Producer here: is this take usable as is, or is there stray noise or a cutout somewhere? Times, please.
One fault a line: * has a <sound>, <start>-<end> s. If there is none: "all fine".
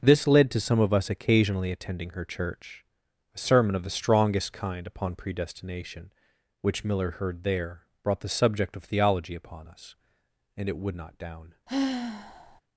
* has a sigh, 11.7-12.6 s